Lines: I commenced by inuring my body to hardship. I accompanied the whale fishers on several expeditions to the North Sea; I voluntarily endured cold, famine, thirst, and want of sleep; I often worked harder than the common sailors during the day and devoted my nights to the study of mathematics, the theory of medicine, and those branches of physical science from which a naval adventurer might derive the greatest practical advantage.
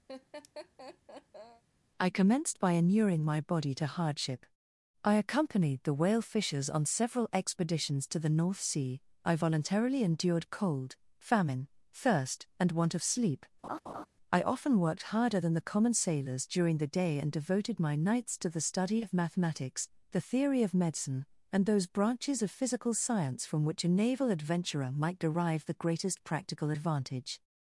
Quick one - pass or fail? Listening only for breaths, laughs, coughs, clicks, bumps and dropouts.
fail